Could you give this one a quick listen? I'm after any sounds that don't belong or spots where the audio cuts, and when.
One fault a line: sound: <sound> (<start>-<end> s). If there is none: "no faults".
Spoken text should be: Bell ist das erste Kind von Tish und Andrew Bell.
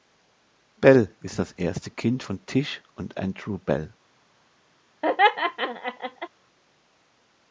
sound: laugh (5.0-6.3 s)